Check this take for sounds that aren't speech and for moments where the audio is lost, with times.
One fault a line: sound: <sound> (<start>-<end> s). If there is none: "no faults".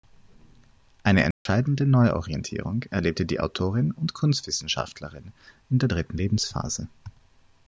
sound: dropout (1.3-1.5 s)